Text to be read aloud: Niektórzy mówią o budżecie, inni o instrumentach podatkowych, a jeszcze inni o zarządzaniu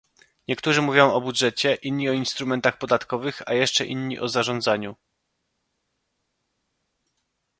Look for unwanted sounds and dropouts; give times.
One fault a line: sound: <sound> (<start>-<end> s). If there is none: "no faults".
no faults